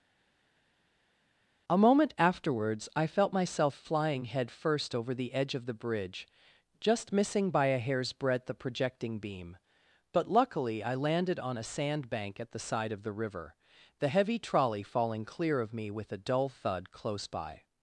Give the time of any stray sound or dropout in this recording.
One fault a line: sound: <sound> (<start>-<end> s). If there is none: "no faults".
no faults